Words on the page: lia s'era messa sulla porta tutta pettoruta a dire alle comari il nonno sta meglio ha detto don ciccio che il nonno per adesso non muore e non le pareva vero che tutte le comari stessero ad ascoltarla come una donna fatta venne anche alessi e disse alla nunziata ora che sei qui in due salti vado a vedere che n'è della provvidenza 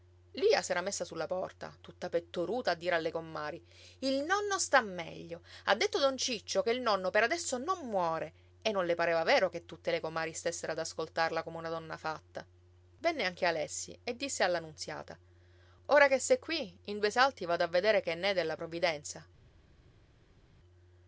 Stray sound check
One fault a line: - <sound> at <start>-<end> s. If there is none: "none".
none